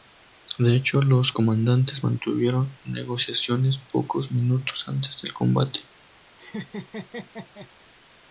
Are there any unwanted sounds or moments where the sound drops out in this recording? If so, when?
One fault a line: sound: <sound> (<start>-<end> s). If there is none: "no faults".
sound: laugh (6.4-7.7 s)